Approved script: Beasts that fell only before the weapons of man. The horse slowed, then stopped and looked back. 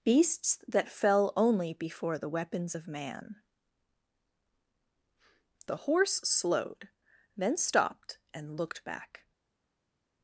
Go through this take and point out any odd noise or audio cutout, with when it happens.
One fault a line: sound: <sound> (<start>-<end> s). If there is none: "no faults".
no faults